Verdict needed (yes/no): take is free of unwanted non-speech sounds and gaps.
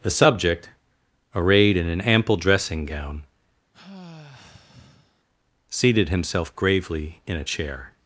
no